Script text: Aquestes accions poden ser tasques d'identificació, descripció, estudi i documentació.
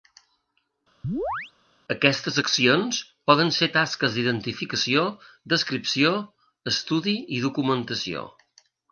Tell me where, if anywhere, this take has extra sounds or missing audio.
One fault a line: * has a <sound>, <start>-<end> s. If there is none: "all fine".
* has a chirp, 1.0-1.5 s